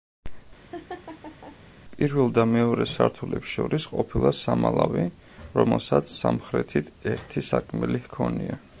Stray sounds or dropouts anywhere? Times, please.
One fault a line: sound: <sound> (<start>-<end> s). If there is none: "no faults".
sound: laugh (0.7-1.6 s)